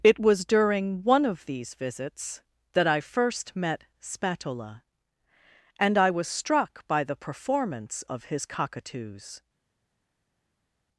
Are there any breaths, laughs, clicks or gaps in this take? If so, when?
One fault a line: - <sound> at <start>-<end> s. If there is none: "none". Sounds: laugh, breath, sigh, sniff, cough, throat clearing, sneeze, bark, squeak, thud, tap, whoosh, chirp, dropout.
none